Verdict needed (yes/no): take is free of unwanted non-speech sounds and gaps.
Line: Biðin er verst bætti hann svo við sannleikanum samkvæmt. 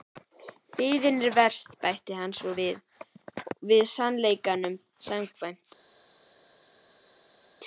yes